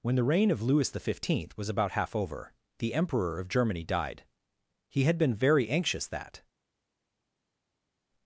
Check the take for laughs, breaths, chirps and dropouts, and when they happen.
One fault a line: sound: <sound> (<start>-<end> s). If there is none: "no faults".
no faults